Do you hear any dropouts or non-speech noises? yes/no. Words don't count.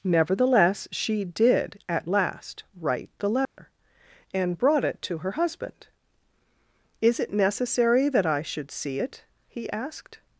yes